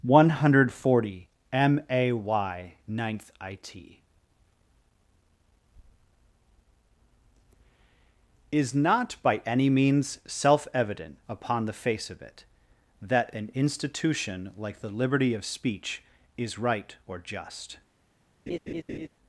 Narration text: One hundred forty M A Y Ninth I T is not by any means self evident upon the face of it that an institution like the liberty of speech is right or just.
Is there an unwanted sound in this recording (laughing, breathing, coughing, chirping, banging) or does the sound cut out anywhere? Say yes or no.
yes